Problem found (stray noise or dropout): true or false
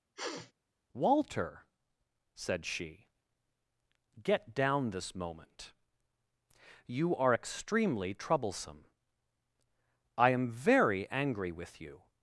true